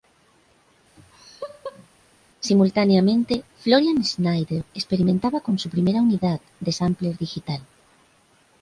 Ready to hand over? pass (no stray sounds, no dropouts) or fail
fail